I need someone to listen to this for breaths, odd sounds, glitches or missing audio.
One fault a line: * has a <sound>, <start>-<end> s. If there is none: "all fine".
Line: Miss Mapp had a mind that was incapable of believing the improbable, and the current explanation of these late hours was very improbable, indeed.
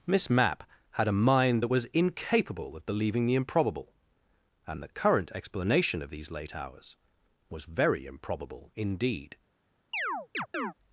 * has a chirp, 9.9-10.7 s